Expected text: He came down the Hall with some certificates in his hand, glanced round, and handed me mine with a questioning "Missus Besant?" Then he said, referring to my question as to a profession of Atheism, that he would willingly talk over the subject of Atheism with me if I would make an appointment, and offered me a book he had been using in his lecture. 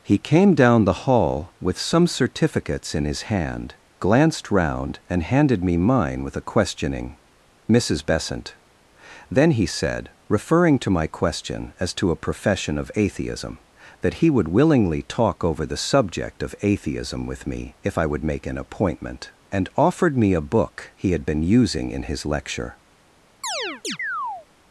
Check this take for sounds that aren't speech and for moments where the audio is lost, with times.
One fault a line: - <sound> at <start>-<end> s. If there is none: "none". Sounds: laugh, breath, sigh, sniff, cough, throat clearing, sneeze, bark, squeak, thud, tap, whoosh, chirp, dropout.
- chirp at 23.4-24.5 s